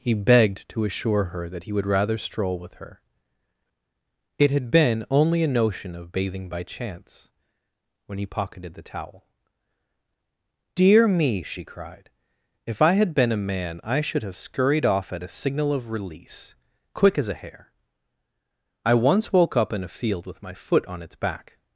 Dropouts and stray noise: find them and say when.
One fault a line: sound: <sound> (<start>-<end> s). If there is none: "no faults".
no faults